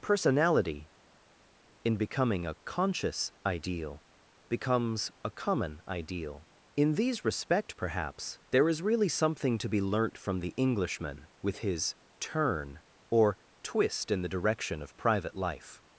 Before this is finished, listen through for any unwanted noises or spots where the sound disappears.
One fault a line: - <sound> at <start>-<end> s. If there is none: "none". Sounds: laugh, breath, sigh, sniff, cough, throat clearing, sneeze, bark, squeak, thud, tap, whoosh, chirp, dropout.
none